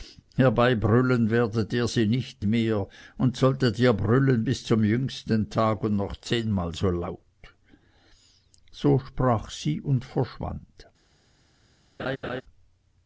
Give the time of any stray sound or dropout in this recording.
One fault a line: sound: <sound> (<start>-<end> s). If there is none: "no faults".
sound: laugh (12.0-12.4 s)